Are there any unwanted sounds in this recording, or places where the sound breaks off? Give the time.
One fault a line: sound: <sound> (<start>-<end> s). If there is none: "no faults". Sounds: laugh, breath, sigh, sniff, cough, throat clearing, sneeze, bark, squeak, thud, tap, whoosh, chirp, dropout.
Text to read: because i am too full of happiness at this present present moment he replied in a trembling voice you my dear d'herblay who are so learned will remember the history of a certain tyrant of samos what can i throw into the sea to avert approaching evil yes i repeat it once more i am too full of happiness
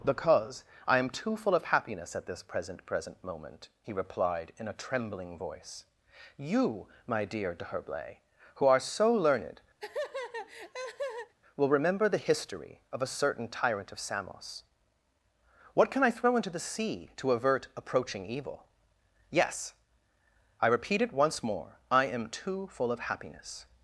sound: laugh (9.8-11.3 s)